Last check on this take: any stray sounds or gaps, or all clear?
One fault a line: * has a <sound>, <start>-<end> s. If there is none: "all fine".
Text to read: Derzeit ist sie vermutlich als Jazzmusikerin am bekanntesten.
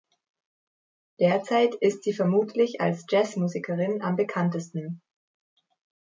all fine